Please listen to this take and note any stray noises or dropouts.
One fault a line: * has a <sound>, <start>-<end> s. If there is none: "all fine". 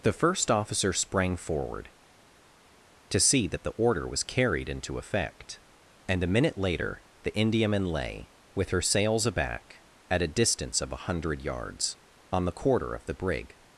all fine